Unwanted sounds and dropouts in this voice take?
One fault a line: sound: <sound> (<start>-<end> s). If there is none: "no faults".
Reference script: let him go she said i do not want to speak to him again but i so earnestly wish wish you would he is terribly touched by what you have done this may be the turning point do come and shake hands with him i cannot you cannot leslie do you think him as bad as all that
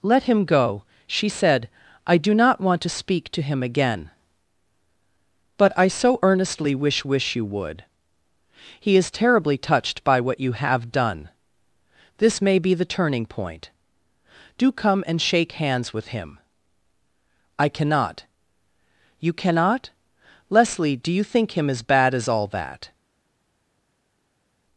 no faults